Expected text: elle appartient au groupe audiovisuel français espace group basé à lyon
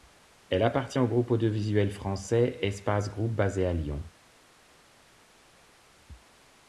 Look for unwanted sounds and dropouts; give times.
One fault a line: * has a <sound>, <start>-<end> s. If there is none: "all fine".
all fine